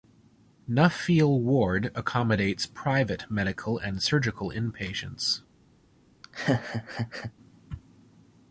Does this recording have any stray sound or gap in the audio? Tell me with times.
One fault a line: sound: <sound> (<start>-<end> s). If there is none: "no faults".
sound: laugh (6.2-7.3 s)